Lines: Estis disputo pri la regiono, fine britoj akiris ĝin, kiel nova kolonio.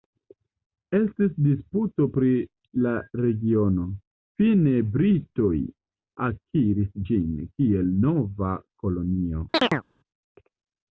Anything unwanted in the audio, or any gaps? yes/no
yes